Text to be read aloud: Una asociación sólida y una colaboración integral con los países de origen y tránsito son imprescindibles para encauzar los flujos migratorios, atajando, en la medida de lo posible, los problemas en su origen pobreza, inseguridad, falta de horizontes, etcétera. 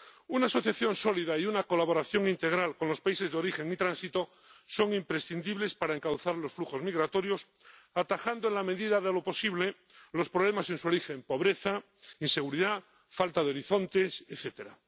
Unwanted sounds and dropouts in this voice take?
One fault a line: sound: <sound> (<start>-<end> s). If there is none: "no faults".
no faults